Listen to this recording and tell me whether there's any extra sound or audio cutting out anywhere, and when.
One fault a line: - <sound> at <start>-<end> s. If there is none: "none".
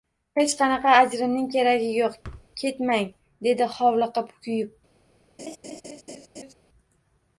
- thud at 2.2-2.5 s
- laugh at 5.4-6.5 s